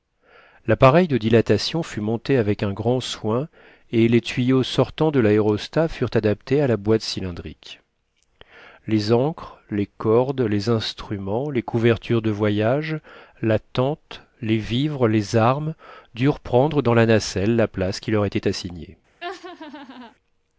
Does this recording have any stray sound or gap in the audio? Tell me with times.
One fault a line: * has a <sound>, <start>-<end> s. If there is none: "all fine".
* has a laugh, 19.2-20.1 s